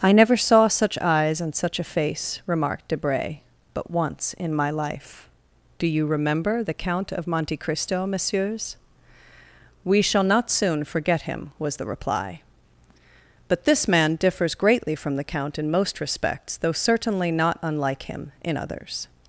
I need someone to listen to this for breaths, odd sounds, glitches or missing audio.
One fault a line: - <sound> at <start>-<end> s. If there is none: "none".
none